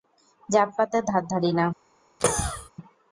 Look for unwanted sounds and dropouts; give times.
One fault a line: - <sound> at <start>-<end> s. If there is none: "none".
- cough at 2.2-2.7 s